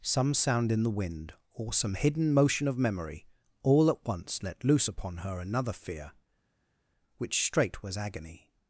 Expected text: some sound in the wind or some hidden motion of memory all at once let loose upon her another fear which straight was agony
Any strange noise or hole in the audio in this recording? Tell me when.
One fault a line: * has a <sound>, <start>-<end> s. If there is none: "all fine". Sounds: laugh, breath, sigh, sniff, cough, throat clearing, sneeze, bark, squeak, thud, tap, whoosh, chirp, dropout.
all fine